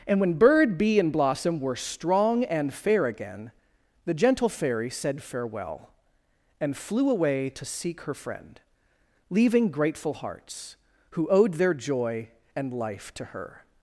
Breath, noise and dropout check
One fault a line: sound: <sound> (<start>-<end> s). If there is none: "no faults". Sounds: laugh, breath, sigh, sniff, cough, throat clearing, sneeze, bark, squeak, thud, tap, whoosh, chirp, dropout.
no faults